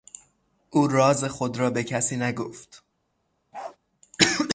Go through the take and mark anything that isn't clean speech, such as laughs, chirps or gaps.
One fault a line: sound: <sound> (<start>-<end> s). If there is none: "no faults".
sound: bark (3.5-3.8 s)